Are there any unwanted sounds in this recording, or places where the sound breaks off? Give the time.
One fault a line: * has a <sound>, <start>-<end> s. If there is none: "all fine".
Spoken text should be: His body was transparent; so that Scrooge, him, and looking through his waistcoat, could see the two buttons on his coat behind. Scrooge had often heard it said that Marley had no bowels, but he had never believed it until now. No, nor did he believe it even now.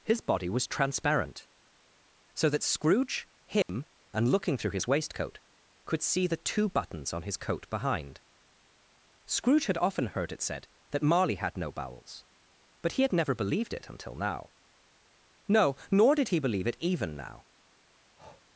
* has a dropout, 3.6-3.7 s
* has a breath, 18.2-18.4 s